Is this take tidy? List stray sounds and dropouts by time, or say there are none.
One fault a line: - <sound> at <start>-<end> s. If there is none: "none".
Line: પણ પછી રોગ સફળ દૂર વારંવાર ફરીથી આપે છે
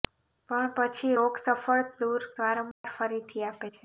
- dropout at 2.7-2.8 s